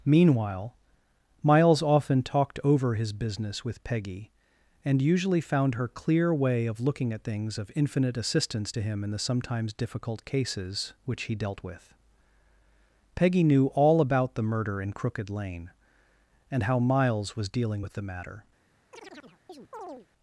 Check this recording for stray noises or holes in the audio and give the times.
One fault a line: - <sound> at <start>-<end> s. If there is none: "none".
- chirp at 18.9-20.1 s